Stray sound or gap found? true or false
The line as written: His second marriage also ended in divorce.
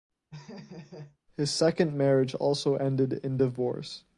true